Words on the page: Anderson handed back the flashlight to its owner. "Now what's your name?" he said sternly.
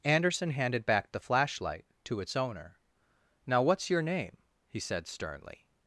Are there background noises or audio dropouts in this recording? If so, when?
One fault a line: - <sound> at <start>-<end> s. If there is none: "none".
none